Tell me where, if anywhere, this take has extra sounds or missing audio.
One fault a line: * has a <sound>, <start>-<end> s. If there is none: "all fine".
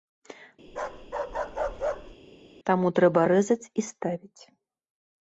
* has a bark, 0.7-2.2 s